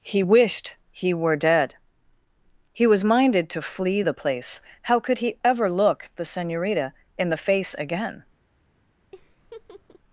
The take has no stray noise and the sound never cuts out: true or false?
false